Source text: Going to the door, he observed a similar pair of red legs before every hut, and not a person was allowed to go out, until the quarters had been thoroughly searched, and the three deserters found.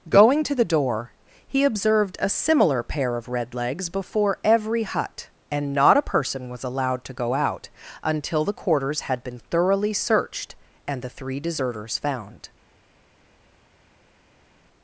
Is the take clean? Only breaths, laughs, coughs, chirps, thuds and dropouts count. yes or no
yes